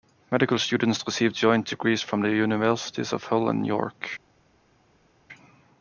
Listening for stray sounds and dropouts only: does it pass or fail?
pass